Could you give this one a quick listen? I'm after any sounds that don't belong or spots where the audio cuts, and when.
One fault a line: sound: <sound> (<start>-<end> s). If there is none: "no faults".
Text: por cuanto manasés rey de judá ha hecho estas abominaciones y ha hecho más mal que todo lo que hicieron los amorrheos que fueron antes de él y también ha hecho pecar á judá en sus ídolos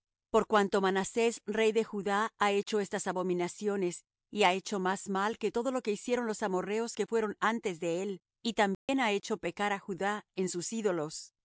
sound: dropout (8.7-8.9 s)